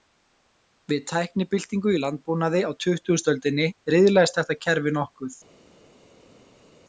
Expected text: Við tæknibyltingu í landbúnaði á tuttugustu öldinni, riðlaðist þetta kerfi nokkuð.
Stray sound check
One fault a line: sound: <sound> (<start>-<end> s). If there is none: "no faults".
no faults